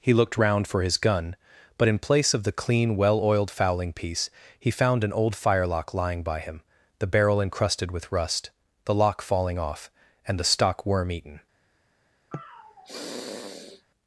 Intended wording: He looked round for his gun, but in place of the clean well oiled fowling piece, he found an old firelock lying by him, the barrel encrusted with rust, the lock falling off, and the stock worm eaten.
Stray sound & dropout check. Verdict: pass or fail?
fail